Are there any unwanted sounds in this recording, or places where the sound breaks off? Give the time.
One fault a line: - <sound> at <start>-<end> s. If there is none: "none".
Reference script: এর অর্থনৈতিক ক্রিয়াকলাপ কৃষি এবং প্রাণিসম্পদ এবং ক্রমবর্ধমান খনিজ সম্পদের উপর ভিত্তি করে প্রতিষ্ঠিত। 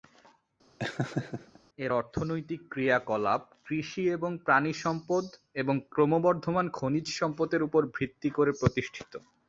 - laugh at 0.8-1.6 s